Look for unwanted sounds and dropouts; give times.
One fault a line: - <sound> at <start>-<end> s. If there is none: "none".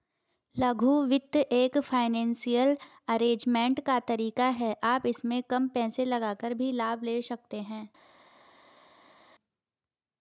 none